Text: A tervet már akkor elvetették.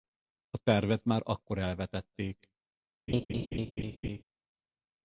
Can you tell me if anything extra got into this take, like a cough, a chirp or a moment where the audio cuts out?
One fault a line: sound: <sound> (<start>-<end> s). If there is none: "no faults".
sound: laugh (3.1-4.2 s)